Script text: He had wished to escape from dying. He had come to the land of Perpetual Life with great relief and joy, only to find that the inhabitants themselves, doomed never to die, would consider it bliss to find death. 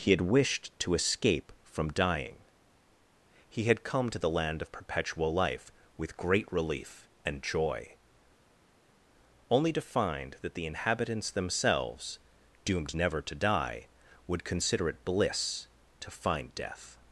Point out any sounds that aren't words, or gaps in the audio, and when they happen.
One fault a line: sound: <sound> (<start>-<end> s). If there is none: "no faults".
no faults